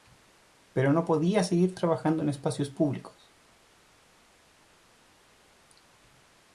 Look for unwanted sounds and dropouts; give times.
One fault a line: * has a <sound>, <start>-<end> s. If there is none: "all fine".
all fine